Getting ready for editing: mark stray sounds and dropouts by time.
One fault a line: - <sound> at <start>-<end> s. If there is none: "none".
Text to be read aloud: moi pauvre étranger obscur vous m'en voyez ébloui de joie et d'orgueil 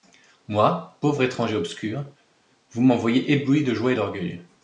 none